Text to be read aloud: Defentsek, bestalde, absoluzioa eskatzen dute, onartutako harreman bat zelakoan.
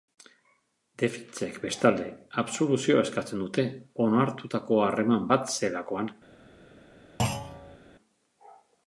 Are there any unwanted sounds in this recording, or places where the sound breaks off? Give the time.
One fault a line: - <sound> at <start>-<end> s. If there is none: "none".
- thud at 7.2-7.8 s